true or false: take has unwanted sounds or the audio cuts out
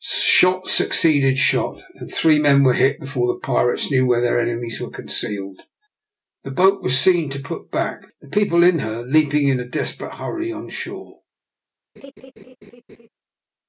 true